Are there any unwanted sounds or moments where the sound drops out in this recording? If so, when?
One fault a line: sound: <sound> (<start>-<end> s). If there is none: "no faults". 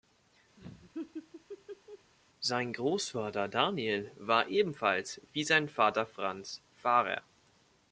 sound: laugh (0.6-2.1 s)